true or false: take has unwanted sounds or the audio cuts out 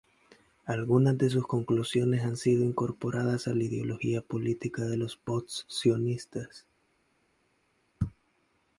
false